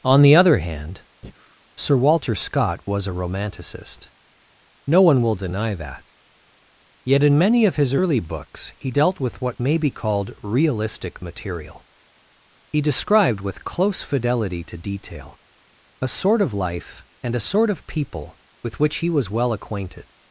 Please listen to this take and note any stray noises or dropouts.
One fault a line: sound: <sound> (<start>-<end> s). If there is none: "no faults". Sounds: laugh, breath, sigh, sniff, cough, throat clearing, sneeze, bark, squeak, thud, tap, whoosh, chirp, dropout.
sound: breath (1.2-1.6 s)